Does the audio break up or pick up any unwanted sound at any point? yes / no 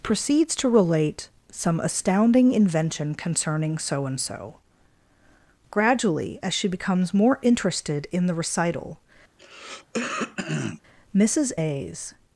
yes